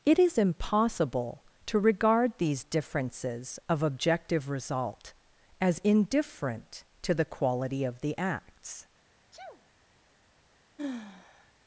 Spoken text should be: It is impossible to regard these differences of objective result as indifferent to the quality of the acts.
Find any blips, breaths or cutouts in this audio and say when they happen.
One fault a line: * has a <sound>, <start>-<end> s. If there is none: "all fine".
* has a sneeze, 9.3-9.7 s
* has a sigh, 10.8-11.5 s